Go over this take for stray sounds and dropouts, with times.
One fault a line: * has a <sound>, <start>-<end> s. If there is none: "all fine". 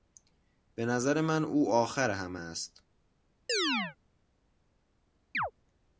* has a chirp, 3.5-4.0 s
* has a chirp, 5.3-5.5 s